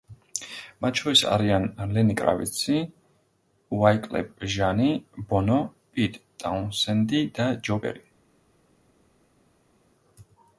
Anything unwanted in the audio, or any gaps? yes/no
no